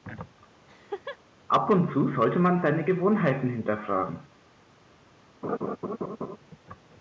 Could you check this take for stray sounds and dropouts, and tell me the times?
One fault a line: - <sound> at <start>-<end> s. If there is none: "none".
- laugh at 0.7-1.2 s
- laugh at 5.4-6.4 s